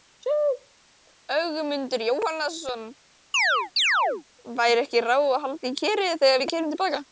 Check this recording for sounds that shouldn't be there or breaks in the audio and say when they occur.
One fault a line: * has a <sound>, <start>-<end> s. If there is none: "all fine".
* has a chirp, 3.3-4.2 s